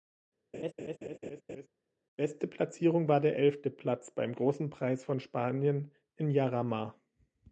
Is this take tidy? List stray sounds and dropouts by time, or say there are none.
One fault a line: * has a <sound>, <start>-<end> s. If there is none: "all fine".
* has a laugh, 0.5-1.7 s